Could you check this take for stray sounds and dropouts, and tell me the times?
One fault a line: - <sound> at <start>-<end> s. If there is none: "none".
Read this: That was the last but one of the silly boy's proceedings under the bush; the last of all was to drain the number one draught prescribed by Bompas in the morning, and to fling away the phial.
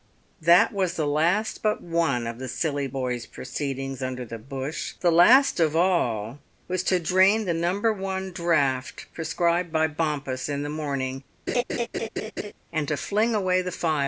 - laugh at 11.5-12.5 s